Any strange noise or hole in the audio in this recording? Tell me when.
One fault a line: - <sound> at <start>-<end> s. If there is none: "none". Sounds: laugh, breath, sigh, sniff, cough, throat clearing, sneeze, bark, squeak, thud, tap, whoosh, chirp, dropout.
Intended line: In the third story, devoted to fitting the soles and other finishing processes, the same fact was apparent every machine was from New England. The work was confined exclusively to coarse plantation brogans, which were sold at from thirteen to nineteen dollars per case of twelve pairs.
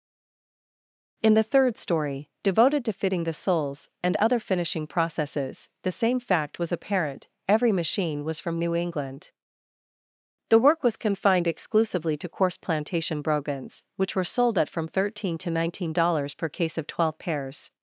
none